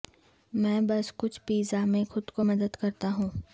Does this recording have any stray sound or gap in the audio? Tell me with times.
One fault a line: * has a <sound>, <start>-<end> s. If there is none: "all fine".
all fine